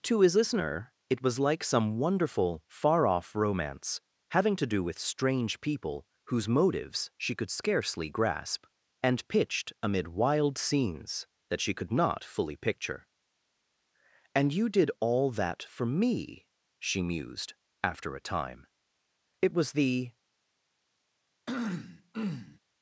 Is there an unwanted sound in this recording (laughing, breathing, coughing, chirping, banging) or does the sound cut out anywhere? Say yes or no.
yes